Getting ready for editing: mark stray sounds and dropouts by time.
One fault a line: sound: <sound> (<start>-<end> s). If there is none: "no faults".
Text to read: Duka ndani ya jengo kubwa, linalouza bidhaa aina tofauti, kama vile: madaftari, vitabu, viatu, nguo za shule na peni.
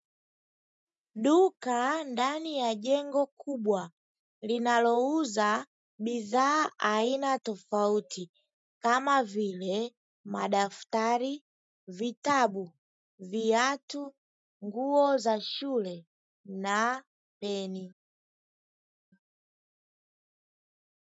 no faults